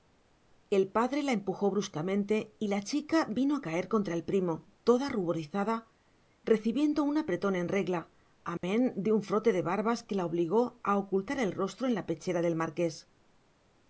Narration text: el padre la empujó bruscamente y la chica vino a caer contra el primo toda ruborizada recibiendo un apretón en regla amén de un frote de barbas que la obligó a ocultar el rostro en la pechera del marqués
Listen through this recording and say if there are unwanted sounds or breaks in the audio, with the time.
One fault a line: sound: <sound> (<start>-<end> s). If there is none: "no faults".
sound: dropout (8.6-8.6 s)